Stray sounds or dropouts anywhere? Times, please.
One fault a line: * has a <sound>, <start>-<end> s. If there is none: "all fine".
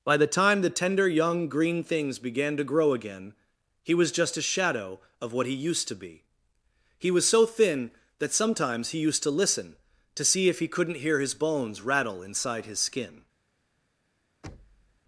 * has a thud, 14.4-15.0 s